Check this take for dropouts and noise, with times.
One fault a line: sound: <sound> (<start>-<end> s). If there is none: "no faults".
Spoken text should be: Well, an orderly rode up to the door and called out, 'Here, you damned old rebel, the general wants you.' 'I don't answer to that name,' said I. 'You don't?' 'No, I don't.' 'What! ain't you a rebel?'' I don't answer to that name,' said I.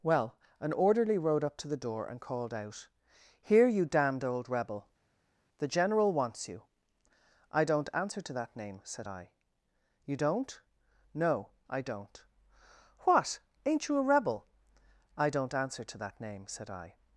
no faults